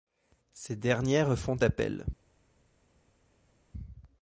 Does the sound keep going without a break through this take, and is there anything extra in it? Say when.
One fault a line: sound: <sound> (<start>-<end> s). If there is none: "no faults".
no faults